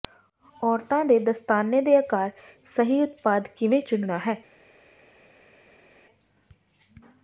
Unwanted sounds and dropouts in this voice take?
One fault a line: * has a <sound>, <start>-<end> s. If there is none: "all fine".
all fine